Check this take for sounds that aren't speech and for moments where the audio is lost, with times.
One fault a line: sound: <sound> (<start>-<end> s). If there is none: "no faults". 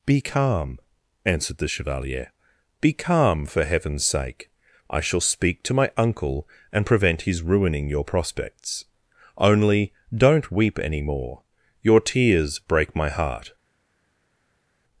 no faults